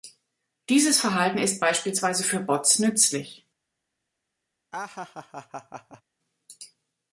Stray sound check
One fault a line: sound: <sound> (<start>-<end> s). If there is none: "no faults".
sound: laugh (4.7-6.0 s)